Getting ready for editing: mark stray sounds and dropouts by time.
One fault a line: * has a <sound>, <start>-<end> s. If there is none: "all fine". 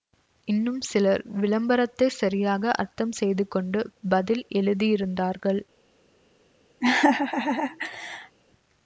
* has a laugh, 6.8-8.4 s